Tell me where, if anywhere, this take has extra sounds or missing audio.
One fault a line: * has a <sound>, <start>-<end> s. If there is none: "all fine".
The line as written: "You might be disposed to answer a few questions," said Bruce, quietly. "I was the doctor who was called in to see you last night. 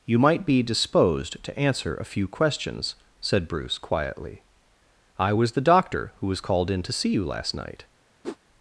* has a whoosh, 8.2-8.4 s